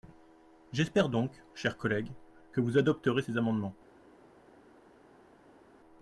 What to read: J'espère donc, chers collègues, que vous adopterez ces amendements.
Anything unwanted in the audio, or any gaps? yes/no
no